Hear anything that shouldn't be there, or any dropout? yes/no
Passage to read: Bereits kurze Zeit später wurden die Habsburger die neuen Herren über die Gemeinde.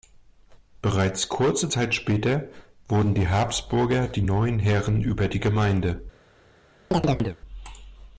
yes